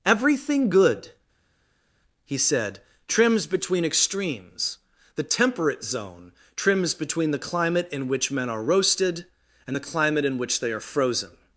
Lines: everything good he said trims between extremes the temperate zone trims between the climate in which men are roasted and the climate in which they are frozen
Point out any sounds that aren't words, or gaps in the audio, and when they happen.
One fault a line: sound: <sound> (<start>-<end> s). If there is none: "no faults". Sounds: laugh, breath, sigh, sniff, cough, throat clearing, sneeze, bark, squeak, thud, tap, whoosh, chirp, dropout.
no faults